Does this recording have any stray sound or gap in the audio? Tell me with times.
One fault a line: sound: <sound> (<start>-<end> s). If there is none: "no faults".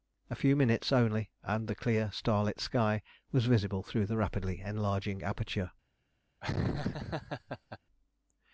sound: laugh (6.4-7.8 s)